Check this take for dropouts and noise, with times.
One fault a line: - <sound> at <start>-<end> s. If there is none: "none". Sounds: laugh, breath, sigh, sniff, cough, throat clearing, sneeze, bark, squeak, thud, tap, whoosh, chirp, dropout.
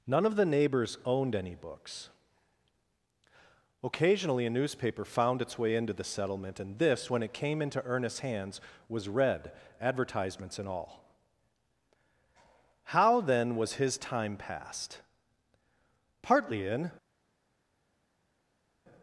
none